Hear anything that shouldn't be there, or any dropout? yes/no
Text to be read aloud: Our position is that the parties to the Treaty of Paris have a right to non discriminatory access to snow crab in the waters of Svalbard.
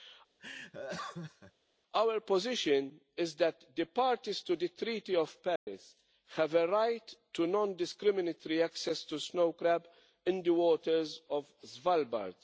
yes